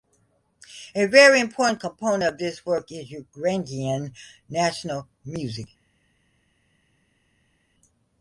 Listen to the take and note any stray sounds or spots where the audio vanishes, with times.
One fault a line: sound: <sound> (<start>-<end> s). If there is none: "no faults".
no faults